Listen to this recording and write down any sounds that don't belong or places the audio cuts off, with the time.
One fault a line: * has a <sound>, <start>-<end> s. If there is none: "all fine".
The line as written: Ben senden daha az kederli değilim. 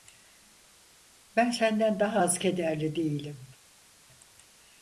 all fine